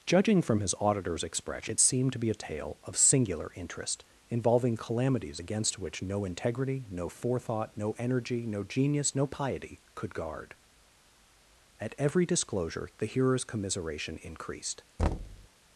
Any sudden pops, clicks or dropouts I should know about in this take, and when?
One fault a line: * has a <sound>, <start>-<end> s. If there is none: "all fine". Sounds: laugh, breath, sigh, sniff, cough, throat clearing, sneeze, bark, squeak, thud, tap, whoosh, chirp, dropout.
* has a thud, 15.0-15.5 s